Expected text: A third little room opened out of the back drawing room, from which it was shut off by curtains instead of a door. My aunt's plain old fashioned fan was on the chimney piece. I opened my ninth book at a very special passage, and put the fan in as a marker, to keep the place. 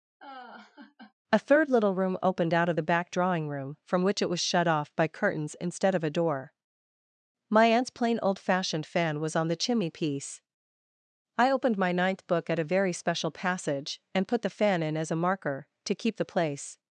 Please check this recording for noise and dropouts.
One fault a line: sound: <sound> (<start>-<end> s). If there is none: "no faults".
sound: laugh (0.2-1.1 s)